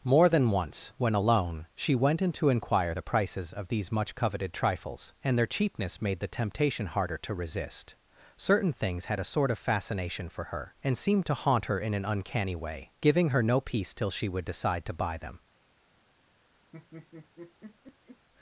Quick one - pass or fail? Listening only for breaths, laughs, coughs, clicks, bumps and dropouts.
fail